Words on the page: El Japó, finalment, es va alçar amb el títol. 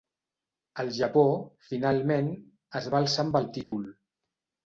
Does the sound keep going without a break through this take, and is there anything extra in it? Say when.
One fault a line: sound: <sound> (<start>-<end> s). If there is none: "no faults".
sound: dropout (3.6-3.7 s)